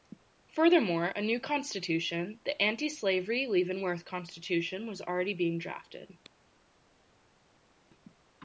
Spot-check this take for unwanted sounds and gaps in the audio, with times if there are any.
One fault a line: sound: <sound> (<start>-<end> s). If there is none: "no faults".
no faults